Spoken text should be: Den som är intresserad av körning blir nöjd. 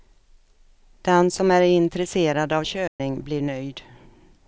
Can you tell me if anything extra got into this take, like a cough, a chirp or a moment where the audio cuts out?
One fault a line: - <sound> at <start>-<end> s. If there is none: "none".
- dropout at 2.9-3.0 s